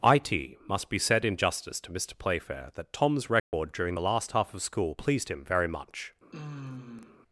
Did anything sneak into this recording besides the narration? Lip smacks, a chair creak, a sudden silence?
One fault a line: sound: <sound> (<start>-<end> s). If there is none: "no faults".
sound: dropout (3.4-3.5 s)
sound: sigh (6.3-7.2 s)